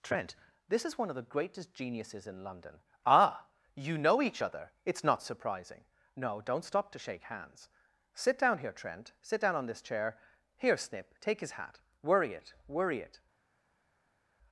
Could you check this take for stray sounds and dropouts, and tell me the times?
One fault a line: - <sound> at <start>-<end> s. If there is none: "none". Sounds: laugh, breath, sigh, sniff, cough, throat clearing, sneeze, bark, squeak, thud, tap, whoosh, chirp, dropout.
none